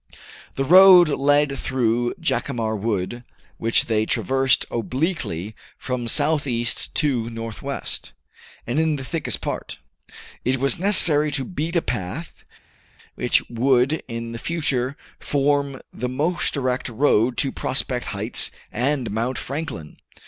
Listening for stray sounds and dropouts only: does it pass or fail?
pass